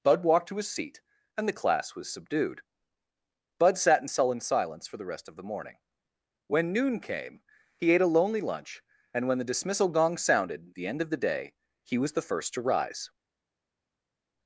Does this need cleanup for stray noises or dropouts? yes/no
no